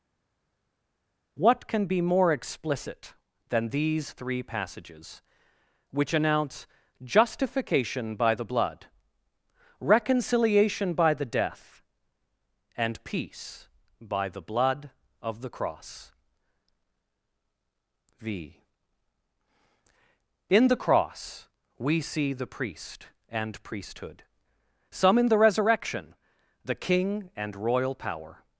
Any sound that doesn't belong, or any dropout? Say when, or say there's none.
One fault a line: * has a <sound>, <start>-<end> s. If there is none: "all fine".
all fine